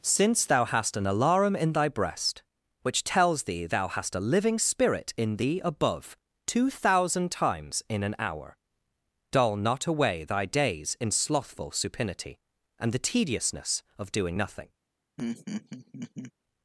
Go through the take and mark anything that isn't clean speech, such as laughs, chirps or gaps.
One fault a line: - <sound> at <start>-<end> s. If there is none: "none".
- laugh at 15.2-16.3 s